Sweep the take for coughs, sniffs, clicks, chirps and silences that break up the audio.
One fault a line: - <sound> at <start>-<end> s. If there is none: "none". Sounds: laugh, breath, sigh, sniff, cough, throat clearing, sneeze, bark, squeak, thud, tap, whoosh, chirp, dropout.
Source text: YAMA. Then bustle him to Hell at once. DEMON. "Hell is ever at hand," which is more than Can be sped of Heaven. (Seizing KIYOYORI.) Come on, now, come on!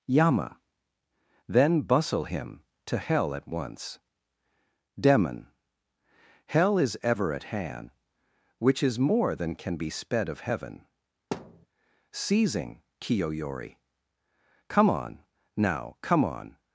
- thud at 11.3-11.7 s